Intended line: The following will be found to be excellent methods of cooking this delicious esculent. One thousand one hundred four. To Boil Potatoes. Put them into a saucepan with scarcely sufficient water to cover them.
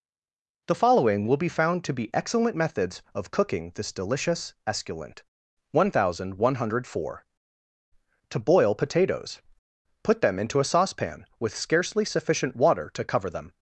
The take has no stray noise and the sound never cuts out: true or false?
true